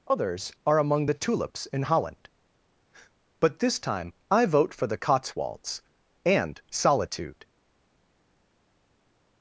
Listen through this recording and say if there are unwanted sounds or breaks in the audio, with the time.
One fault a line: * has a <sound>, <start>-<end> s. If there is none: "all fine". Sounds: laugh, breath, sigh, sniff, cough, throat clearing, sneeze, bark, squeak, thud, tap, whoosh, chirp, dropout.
all fine